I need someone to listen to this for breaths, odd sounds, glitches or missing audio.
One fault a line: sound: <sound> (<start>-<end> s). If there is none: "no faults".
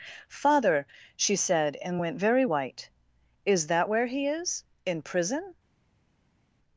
no faults